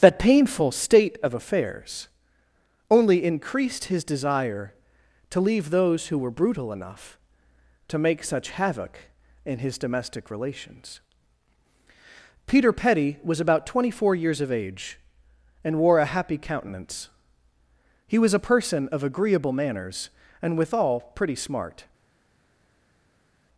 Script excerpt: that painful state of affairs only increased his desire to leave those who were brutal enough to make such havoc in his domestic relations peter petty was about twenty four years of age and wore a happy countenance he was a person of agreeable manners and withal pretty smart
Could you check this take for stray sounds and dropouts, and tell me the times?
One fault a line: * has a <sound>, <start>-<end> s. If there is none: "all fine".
all fine